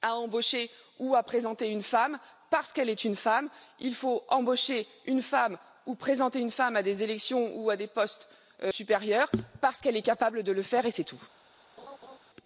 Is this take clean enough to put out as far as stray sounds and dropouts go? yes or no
no